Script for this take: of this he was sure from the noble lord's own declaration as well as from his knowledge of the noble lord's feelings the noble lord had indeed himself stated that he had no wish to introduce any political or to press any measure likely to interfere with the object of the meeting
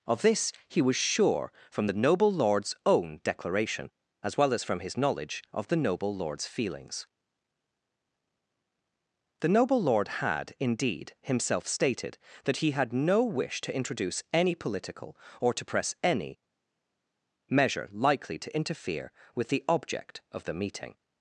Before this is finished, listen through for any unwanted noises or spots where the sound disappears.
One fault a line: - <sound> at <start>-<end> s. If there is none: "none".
none